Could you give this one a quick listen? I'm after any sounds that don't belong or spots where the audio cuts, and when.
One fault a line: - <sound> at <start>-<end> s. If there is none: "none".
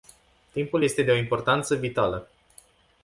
none